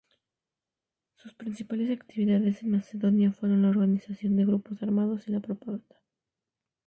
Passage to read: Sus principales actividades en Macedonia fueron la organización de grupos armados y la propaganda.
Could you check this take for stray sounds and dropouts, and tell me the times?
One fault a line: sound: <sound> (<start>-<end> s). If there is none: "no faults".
no faults